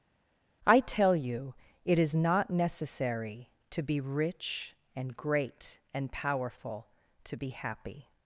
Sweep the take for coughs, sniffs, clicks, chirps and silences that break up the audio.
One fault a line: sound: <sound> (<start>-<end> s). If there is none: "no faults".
no faults